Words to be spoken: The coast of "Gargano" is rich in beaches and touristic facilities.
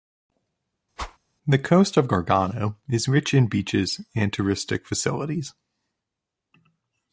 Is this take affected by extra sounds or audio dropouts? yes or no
yes